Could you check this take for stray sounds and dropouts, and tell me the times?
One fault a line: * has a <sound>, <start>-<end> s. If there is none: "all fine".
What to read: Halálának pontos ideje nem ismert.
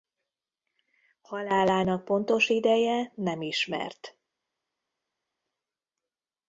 all fine